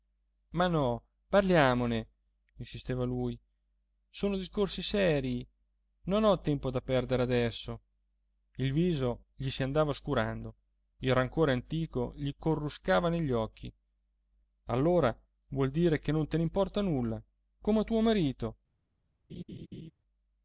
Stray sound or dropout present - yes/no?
yes